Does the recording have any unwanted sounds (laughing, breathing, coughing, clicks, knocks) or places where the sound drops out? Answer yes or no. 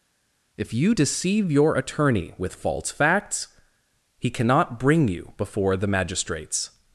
no